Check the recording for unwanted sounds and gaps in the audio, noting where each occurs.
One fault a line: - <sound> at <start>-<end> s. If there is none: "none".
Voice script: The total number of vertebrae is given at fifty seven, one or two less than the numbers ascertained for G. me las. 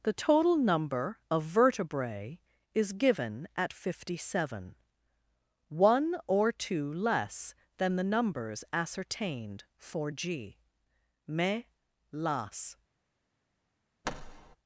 - thud at 14.0-14.6 s